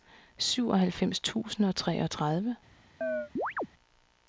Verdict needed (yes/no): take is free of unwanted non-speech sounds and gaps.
no